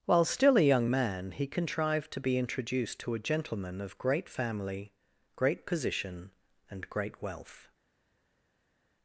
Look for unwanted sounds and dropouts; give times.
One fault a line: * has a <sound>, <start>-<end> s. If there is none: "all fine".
all fine